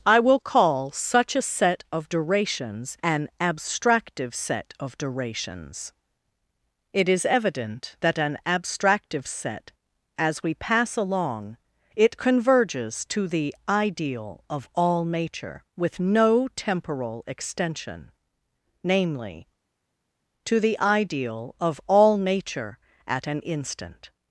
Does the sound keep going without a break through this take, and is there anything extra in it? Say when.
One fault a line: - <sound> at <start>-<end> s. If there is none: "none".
none